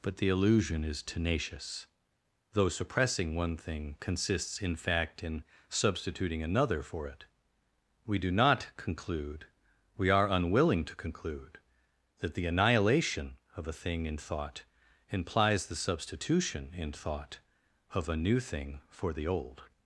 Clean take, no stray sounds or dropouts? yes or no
yes